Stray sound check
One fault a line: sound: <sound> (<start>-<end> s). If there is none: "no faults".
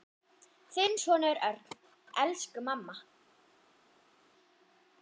no faults